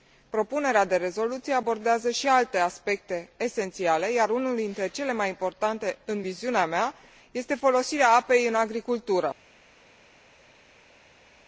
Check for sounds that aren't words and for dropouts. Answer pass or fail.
pass